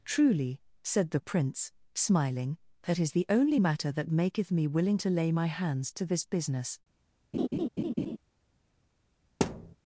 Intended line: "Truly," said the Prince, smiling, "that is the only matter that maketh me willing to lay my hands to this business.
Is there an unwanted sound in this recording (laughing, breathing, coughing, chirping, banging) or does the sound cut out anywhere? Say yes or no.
yes